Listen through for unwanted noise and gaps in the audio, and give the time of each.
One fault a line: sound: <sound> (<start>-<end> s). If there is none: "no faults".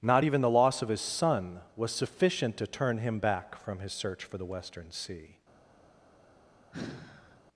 sound: sigh (6.7-7.4 s)